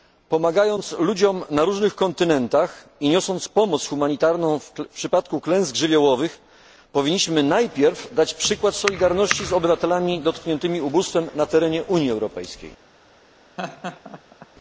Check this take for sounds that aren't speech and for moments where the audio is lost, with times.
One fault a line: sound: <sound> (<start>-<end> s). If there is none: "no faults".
sound: laugh (13.6-14.5 s)